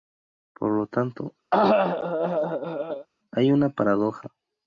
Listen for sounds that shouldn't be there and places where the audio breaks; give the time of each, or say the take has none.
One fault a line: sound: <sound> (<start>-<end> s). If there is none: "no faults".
sound: cough (1.5-3.1 s)